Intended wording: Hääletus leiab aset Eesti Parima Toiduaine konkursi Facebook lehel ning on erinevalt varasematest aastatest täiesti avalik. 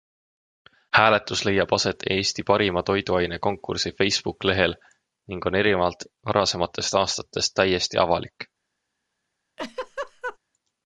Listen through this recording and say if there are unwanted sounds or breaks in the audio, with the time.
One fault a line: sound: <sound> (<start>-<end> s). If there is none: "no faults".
sound: laugh (9.6-10.4 s)